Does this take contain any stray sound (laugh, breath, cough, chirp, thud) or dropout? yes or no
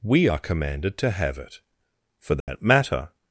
yes